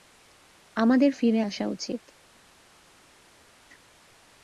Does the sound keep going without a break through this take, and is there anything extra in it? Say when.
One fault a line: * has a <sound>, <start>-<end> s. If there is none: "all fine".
all fine